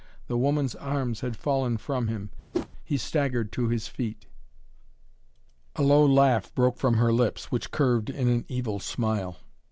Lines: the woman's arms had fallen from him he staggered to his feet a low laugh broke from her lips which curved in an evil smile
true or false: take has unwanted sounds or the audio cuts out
true